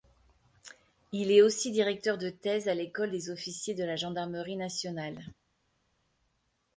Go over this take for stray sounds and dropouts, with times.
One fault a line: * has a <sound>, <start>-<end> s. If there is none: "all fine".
all fine